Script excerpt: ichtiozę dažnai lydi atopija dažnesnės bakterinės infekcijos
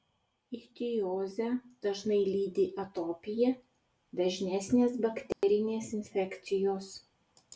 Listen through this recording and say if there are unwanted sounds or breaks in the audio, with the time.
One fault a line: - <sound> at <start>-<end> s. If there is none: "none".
- dropout at 5.3-5.4 s